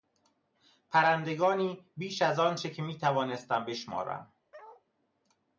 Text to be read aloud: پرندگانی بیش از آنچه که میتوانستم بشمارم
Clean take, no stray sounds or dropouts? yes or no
no